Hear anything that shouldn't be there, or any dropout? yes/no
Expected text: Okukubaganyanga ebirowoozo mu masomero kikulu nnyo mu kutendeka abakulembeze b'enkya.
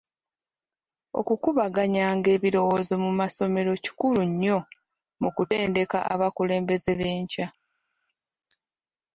no